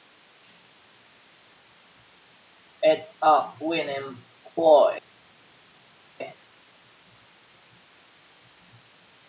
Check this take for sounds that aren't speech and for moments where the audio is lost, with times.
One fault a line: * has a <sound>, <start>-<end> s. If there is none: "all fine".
all fine